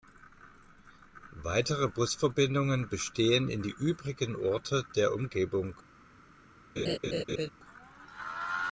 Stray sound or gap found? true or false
true